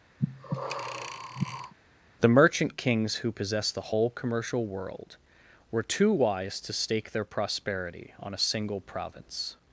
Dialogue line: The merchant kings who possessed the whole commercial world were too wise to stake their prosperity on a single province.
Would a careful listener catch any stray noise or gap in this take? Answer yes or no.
yes